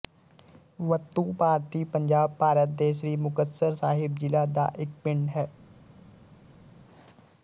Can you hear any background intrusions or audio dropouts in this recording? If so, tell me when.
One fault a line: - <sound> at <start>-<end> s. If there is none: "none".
none